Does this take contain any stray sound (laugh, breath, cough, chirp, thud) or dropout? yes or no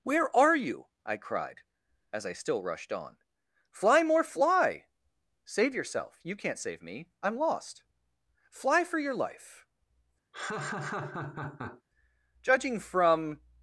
yes